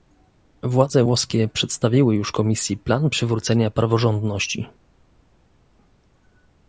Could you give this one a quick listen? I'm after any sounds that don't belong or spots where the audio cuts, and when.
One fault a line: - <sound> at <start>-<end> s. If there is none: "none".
none